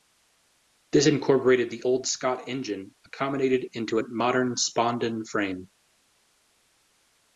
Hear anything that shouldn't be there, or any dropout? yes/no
no